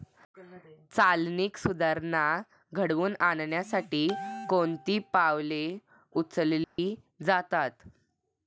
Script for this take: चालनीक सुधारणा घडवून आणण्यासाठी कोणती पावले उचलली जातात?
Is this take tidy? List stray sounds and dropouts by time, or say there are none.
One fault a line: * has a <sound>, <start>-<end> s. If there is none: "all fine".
* has a dropout, 6.6-6.8 s